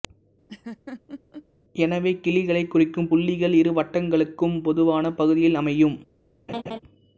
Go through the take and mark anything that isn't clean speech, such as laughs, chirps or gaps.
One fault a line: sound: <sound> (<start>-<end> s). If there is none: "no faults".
sound: laugh (0.5-1.5 s)
sound: laugh (6.5-6.8 s)